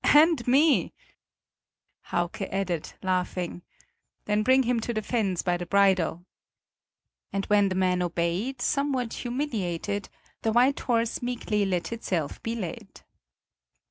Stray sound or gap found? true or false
false